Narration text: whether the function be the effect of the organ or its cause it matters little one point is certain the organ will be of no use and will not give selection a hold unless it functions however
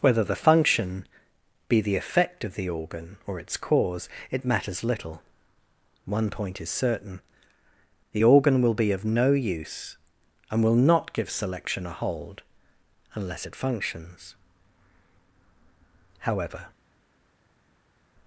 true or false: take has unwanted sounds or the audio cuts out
false